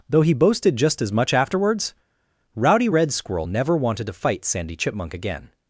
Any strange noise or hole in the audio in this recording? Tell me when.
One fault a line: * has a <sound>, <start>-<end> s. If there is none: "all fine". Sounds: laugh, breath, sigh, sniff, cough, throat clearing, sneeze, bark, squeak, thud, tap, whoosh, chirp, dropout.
all fine